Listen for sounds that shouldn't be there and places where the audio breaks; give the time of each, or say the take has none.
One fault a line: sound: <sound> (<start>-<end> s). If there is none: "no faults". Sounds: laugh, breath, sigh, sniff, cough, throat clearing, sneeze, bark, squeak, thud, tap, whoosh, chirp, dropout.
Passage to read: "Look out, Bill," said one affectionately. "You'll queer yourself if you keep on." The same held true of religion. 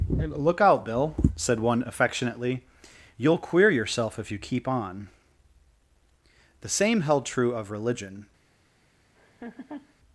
sound: laugh (9.2-9.9 s)